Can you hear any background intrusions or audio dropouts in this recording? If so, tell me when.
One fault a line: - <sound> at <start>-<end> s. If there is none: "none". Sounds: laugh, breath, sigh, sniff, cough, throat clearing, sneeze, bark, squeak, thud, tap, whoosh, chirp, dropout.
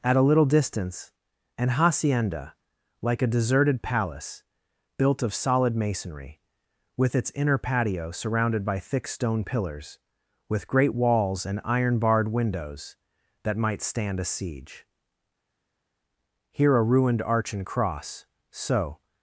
none